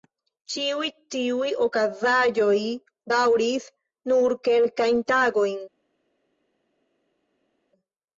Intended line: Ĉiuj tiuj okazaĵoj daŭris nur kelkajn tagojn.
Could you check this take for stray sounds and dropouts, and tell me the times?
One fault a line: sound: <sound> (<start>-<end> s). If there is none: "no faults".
no faults